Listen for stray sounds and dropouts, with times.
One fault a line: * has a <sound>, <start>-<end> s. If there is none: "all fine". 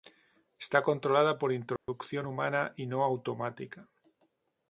* has a dropout, 1.8-1.9 s